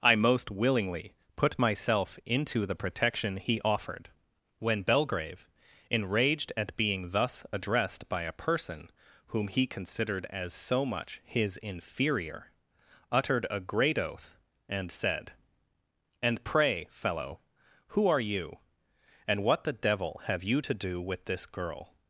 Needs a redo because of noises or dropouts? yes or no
no